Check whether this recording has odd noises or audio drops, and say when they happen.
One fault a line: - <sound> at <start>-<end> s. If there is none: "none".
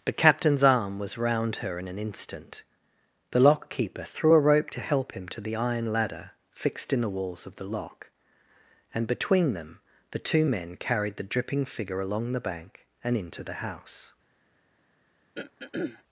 - throat clearing at 15.4-16.0 s